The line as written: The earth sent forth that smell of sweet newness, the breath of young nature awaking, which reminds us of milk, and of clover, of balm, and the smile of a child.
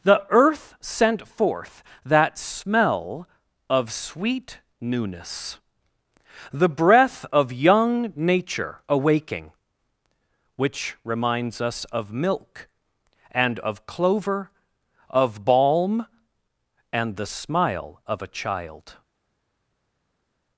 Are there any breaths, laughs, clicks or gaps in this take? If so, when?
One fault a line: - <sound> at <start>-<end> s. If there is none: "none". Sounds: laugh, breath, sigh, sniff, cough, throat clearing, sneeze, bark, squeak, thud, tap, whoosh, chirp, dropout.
none